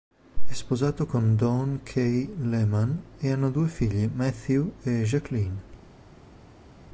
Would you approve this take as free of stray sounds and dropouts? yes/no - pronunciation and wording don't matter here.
yes